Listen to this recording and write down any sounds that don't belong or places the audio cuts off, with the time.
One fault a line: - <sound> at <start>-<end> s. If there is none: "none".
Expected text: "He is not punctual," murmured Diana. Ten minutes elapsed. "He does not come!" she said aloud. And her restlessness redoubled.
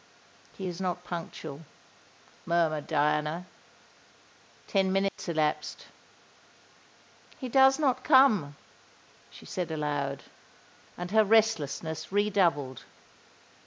- dropout at 5.1-5.2 s